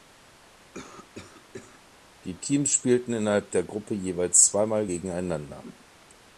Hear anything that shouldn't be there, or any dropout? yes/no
yes